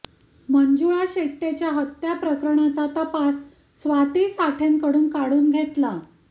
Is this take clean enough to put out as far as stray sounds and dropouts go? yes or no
yes